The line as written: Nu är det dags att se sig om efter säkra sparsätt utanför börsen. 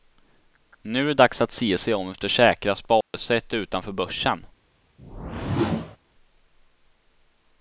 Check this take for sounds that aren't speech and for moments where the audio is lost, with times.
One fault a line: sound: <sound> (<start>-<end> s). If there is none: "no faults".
sound: dropout (3.0-3.1 s)
sound: whoosh (5.0-6.0 s)